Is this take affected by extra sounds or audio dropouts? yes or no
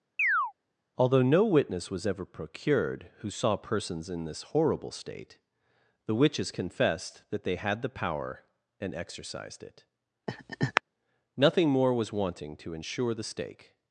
yes